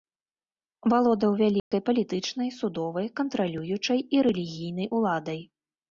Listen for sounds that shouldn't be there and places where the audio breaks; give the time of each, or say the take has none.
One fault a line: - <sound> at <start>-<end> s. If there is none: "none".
- dropout at 1.6-1.7 s